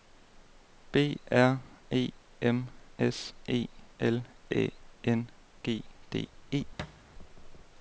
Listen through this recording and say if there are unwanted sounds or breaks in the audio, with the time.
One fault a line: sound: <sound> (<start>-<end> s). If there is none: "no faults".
sound: thud (6.8-7.0 s)